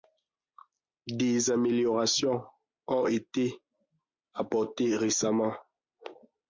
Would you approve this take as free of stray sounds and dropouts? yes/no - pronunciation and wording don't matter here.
yes